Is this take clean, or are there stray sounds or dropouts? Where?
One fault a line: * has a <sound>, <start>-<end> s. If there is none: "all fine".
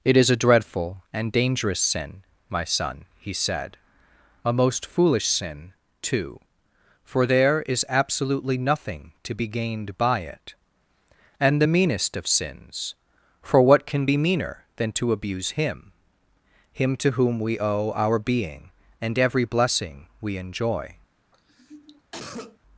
* has a cough, 21.3-22.6 s